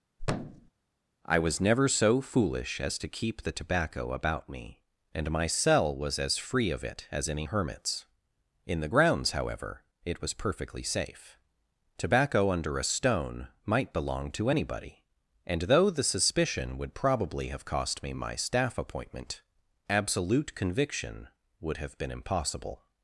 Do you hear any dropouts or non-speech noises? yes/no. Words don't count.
yes